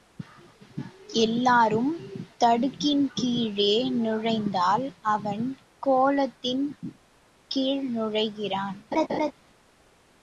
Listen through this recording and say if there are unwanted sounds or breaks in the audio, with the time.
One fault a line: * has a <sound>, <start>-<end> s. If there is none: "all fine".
* has a laugh, 8.9-9.3 s